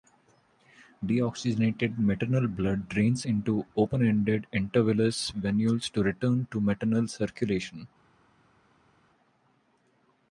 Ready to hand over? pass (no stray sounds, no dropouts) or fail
pass